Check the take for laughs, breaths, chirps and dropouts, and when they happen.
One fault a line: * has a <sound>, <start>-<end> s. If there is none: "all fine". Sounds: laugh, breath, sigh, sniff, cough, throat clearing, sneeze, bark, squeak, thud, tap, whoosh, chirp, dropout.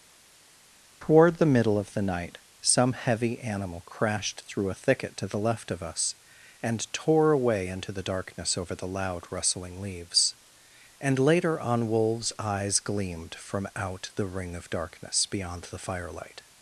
all fine